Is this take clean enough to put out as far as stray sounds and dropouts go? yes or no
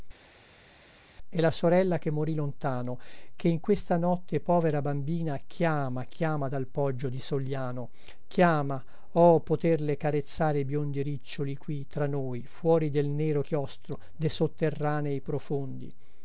yes